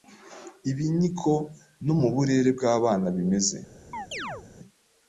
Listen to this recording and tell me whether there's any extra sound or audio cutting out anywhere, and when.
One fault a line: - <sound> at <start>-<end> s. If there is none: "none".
- chirp at 3.9-4.5 s